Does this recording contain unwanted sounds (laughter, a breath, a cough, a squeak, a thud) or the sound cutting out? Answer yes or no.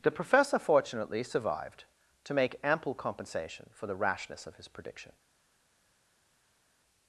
no